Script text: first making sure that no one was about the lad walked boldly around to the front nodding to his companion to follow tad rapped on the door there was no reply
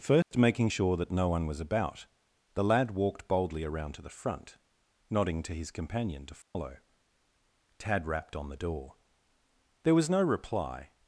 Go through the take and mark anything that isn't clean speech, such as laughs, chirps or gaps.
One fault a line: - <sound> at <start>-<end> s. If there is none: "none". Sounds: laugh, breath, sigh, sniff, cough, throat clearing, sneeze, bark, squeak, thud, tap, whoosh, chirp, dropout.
- dropout at 0.2-0.3 s
- dropout at 6.4-6.6 s